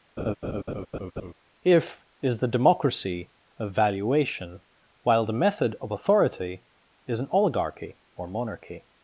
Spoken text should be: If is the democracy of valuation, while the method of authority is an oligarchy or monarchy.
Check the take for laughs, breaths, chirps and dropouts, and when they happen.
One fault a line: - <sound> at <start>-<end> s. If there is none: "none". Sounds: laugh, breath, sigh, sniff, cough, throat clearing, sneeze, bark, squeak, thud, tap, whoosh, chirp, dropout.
- laugh at 0.2-1.3 s